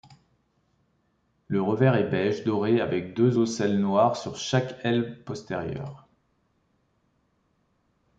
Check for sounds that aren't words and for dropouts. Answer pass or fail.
pass